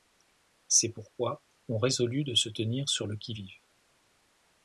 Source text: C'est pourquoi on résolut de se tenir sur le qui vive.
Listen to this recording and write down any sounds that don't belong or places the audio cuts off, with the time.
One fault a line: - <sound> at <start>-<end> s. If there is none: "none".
none